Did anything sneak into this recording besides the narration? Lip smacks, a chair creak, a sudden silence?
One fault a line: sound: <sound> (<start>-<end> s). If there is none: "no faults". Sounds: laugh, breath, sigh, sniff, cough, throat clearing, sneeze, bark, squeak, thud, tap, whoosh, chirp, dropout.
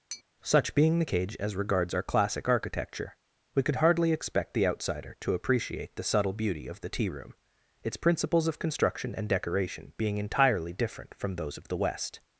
sound: tap (0.1-0.2 s)